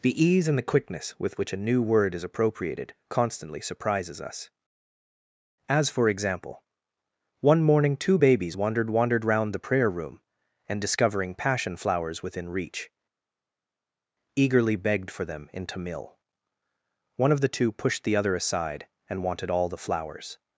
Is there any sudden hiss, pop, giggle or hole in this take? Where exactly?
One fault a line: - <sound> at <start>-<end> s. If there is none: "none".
none